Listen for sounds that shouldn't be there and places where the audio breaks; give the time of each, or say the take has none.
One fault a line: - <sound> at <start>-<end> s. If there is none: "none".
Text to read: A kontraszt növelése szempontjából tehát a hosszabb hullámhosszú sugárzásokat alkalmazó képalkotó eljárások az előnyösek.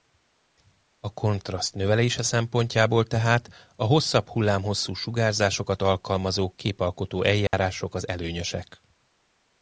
- dropout at 7.5-7.5 s